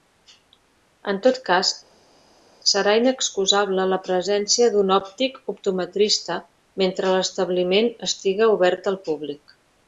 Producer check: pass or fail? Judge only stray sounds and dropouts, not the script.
pass